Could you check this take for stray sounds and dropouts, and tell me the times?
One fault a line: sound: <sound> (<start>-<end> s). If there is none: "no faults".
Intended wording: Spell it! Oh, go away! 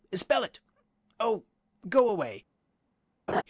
sound: laugh (3.3-3.4 s)